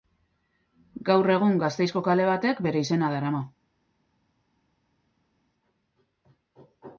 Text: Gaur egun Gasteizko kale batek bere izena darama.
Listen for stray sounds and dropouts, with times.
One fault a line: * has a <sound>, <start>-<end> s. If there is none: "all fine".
all fine